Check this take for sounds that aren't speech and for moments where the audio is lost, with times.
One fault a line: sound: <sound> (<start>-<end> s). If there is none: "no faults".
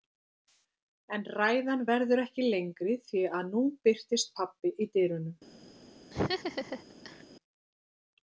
sound: laugh (6.1-7.2 s)